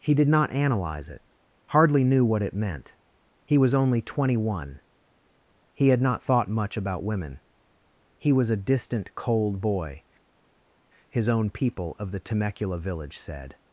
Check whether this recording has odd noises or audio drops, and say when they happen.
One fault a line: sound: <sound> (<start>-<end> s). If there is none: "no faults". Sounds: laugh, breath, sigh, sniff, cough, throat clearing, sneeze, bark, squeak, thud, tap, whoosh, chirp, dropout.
no faults